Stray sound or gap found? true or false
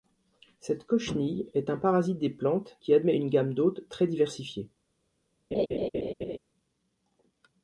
true